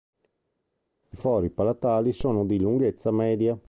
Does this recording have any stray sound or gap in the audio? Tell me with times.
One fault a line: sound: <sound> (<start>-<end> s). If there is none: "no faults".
no faults